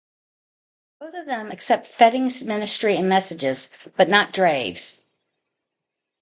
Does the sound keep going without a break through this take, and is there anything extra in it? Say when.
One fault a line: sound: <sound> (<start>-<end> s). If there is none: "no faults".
no faults